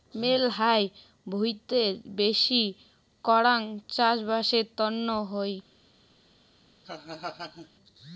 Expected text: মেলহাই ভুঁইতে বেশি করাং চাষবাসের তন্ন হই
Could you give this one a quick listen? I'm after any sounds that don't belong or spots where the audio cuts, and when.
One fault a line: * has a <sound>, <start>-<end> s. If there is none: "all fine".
* has a laugh, 6.8-7.7 s